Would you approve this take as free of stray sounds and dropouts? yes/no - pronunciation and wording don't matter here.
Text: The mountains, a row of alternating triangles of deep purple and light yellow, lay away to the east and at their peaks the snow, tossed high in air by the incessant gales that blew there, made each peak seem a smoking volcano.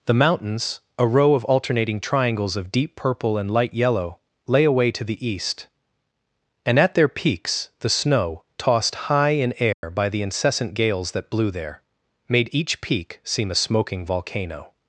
no